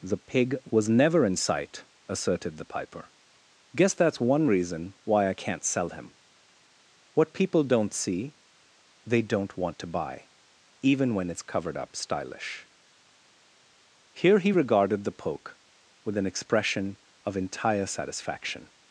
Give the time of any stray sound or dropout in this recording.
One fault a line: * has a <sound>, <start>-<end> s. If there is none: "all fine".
all fine